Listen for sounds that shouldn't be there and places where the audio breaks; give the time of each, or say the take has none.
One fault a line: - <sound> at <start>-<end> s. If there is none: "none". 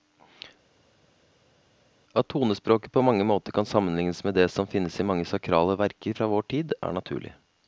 none